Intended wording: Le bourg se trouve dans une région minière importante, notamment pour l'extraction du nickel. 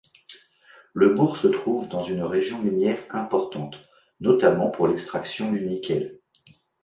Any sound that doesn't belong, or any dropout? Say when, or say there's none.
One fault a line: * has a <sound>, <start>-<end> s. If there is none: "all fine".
all fine